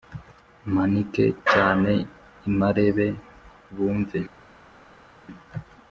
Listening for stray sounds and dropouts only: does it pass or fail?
pass